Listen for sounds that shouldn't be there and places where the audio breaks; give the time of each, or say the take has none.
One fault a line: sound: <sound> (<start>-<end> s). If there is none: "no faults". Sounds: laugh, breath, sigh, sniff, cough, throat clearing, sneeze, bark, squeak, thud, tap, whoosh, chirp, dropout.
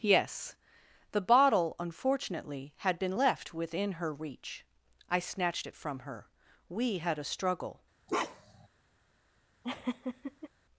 sound: bark (8.1-8.7 s)
sound: laugh (9.6-10.5 s)